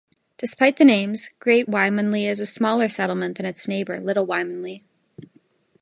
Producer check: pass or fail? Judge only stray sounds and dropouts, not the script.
pass